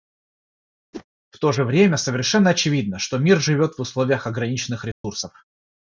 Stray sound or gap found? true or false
true